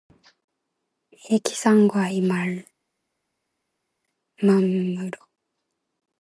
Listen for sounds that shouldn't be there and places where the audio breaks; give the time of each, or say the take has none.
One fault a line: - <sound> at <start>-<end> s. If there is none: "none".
none